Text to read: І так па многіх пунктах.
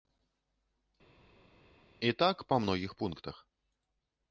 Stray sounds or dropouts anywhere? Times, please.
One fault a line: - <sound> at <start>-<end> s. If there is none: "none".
none